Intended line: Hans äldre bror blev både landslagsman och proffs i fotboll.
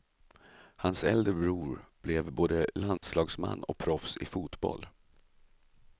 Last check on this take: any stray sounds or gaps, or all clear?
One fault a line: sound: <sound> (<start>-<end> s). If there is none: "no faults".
sound: dropout (3.0-3.0 s)